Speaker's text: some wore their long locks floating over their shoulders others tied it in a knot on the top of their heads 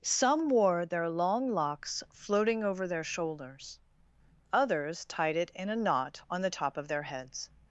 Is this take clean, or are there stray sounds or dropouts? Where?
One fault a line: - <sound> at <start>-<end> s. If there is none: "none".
none